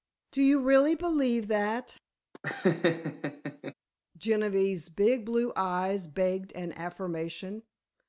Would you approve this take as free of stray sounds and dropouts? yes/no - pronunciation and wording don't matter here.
no